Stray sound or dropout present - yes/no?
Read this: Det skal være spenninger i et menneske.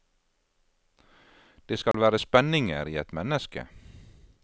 yes